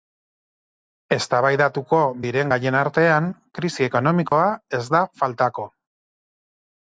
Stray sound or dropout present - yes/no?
yes